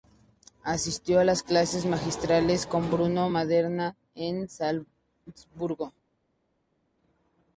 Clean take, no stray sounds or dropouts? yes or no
yes